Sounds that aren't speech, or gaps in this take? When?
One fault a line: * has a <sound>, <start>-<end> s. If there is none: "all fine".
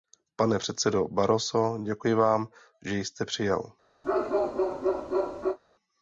* has a bark, 4.0-5.6 s